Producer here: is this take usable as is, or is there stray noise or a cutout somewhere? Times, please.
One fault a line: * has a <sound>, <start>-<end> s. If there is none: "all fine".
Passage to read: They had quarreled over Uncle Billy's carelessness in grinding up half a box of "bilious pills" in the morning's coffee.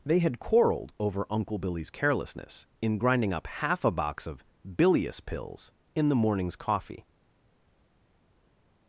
all fine